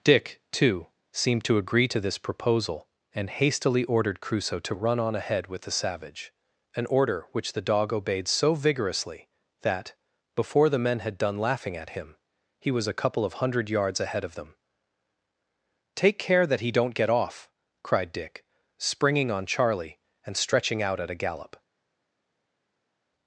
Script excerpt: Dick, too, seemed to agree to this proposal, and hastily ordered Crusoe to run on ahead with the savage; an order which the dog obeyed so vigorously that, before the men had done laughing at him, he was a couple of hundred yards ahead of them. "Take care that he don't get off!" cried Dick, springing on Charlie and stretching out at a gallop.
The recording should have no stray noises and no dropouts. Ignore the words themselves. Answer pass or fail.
pass